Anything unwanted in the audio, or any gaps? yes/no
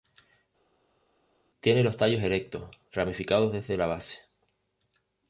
no